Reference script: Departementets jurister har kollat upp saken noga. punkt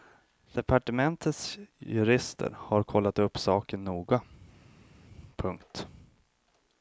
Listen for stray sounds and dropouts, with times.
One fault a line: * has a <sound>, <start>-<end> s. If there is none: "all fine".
all fine